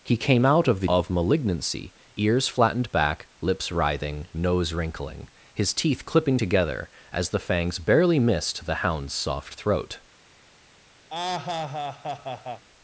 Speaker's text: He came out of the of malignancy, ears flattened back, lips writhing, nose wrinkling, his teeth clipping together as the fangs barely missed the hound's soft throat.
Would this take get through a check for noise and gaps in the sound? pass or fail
fail